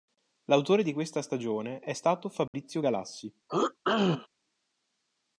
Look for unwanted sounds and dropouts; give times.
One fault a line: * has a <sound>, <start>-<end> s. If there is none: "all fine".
* has a dropout, 2.5-2.5 s
* has a throat clearing, 3.5-4.3 s